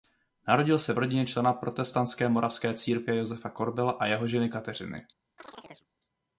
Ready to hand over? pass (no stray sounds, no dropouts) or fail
fail